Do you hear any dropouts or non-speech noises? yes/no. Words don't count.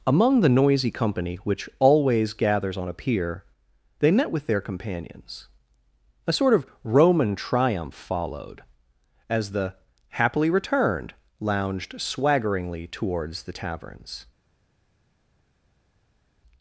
no